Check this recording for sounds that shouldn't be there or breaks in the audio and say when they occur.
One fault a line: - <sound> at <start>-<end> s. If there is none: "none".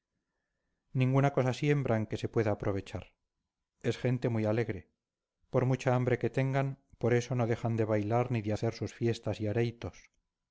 none